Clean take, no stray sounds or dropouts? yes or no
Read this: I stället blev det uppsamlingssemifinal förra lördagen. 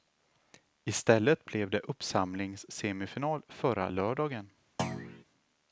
no